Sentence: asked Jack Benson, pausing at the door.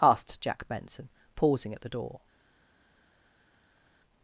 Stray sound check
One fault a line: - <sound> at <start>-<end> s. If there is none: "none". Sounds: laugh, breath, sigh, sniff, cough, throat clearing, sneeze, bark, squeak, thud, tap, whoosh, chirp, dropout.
none